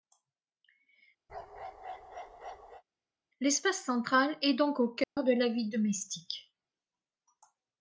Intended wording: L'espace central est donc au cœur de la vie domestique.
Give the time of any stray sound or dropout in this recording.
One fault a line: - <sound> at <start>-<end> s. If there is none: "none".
- bark at 1.3-2.8 s
- dropout at 5.0-5.2 s